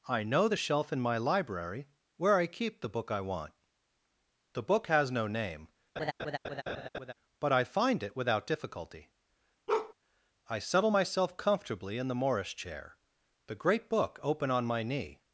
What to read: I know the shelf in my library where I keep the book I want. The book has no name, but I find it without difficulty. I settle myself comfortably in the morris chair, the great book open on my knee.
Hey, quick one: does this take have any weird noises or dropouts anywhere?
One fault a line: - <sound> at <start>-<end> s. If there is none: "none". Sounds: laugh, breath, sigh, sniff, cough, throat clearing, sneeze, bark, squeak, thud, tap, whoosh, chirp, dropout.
- laugh at 6.0-7.1 s
- bark at 9.7-9.9 s